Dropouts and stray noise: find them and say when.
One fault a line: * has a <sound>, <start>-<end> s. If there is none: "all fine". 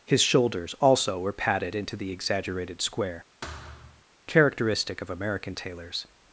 * has a thud, 3.4-4.1 s